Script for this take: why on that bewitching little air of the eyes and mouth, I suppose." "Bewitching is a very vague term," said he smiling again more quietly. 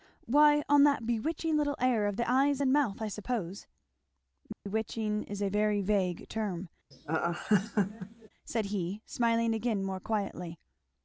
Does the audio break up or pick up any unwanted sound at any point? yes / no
yes